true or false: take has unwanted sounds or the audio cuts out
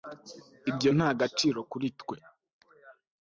false